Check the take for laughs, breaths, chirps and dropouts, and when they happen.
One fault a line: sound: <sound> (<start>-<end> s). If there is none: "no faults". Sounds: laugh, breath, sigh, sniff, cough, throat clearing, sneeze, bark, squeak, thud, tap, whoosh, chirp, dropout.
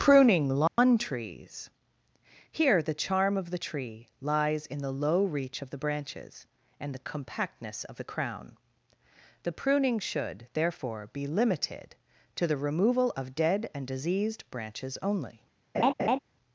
sound: dropout (0.7-0.8 s)
sound: laugh (15.7-16.2 s)